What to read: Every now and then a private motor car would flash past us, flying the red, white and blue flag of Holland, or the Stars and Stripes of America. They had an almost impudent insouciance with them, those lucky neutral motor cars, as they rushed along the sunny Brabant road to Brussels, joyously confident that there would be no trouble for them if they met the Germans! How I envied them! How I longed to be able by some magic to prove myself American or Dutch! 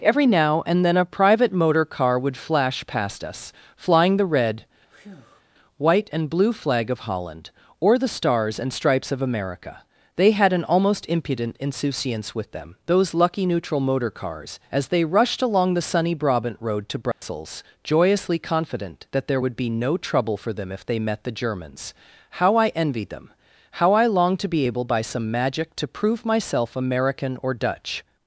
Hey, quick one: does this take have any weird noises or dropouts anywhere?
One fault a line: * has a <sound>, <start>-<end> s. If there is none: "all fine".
* has a breath, 4.9-5.4 s
* has a dropout, 17.1-17.2 s